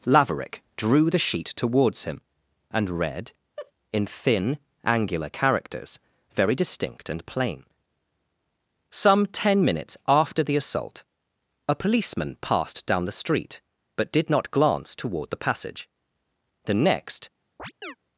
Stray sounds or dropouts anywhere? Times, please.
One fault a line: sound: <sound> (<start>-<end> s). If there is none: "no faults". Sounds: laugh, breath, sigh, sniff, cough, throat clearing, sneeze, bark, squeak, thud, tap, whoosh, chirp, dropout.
sound: laugh (3.6-3.7 s)
sound: chirp (17.6-18.0 s)